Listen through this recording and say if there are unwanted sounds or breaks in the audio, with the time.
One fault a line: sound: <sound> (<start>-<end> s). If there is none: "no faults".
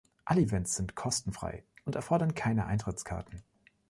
no faults